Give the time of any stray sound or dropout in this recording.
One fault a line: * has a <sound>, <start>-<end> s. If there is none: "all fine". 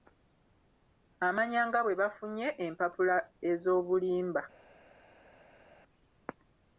all fine